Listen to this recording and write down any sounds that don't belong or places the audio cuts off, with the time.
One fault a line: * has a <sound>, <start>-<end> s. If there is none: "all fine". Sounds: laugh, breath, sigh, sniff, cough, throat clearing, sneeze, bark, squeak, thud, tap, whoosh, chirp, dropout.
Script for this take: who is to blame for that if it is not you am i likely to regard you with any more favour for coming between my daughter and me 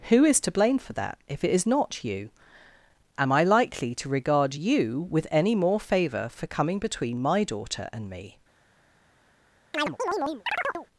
* has a chirp, 9.7-10.9 s